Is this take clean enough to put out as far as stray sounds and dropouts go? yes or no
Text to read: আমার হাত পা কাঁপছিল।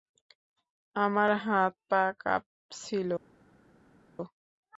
yes